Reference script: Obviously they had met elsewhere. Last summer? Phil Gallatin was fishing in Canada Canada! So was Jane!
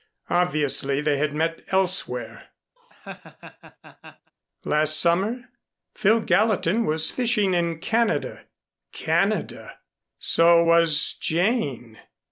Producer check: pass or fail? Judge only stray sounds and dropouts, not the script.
fail